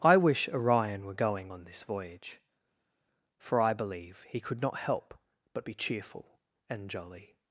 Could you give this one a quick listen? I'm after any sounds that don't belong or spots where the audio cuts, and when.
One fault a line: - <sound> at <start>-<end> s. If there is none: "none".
none